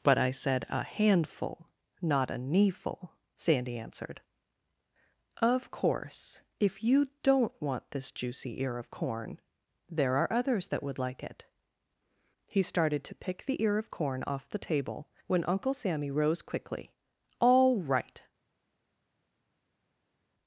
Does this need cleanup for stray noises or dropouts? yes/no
no